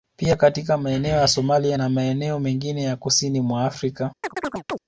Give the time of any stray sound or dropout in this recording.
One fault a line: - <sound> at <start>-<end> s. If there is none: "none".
- chirp at 4.2-4.8 s